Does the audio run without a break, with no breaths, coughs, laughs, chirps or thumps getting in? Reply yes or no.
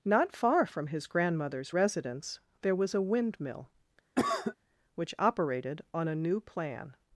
no